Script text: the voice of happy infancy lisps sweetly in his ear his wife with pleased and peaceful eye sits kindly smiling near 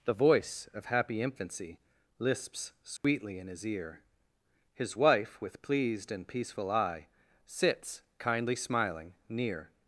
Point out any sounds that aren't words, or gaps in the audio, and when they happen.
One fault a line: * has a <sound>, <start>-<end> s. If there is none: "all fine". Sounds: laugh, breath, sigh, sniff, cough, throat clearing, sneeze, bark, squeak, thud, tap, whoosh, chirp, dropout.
* has a dropout, 3.0-3.0 s